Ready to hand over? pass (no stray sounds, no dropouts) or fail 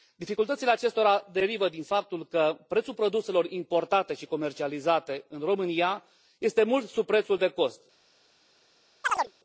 fail